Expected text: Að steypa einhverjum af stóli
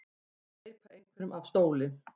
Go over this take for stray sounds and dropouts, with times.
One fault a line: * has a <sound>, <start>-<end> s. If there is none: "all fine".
all fine